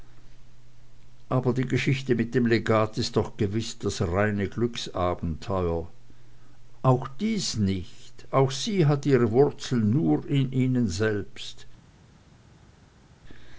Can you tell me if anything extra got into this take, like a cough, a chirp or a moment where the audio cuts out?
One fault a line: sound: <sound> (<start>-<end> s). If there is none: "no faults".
no faults